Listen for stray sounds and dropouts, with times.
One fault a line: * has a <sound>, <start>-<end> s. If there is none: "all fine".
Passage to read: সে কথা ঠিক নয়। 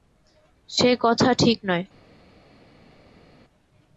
all fine